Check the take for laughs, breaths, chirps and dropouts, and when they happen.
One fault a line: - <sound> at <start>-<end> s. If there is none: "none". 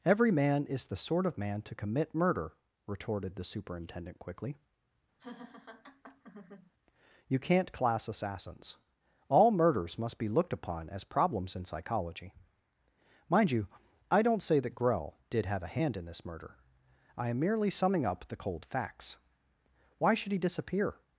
- laugh at 5.2-6.7 s